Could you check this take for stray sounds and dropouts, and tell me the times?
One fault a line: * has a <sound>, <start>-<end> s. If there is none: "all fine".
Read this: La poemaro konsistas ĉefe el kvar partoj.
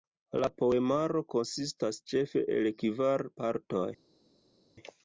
all fine